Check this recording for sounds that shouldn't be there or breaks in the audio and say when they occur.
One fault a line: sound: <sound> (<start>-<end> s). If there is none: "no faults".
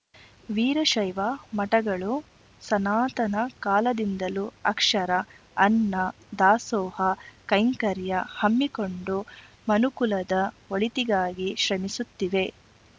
no faults